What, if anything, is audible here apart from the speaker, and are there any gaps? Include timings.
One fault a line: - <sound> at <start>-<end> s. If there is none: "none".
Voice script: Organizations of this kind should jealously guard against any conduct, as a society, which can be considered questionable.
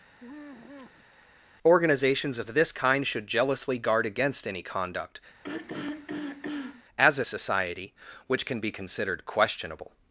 - sigh at 0.2-1.1 s
- throat clearing at 5.4-6.8 s